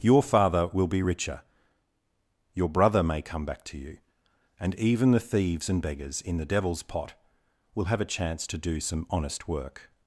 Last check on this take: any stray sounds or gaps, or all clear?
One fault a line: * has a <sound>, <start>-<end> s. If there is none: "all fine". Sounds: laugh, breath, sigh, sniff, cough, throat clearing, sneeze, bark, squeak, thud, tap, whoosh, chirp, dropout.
all fine